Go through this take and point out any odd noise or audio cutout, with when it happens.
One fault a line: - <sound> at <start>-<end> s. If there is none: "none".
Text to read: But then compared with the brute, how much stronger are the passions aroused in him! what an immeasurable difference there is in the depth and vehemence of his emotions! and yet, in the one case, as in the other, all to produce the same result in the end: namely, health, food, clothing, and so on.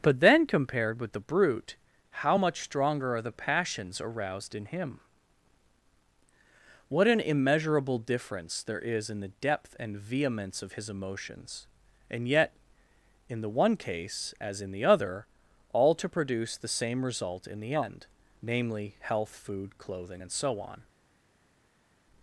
none